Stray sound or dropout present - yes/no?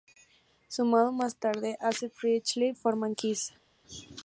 no